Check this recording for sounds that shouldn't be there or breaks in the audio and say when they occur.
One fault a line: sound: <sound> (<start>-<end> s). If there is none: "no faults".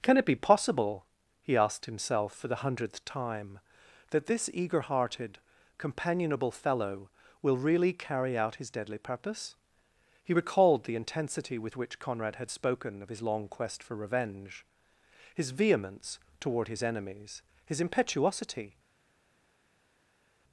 no faults